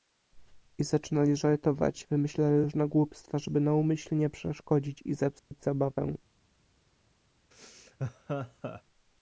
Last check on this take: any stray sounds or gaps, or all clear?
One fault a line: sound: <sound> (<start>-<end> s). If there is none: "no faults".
sound: dropout (5.4-5.5 s)
sound: laugh (7.5-8.8 s)